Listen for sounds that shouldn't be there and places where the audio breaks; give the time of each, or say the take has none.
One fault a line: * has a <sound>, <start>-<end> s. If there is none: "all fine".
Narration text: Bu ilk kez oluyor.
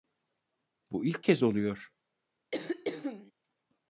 * has a throat clearing, 2.5-3.3 s